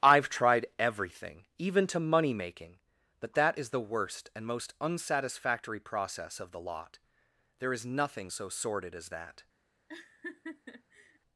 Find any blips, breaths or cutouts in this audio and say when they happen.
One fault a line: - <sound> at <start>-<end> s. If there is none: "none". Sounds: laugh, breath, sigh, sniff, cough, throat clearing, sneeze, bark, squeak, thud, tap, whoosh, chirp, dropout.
- laugh at 9.9-11.2 s